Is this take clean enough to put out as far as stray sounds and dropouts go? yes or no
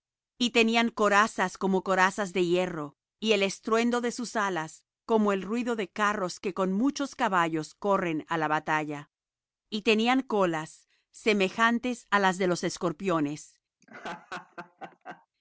no